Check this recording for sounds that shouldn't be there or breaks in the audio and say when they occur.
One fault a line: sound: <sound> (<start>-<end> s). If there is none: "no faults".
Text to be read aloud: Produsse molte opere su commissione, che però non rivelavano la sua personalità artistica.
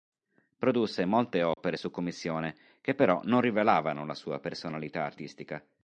sound: dropout (1.5-1.6 s)